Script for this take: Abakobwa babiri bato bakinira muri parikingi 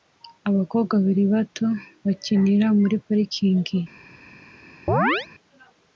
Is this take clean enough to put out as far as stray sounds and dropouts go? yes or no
no